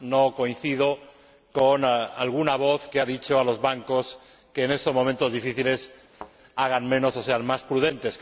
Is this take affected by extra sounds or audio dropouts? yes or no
yes